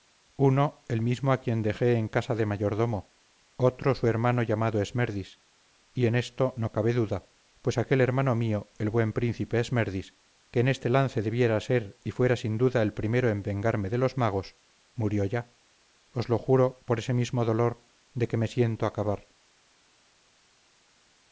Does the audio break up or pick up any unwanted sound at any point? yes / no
no